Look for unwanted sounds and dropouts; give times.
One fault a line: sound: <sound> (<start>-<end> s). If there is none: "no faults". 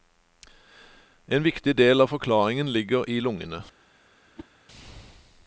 sound: whoosh (4.4-4.5 s)